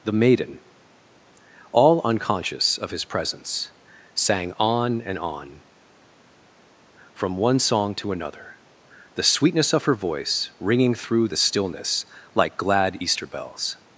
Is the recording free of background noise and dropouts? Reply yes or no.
yes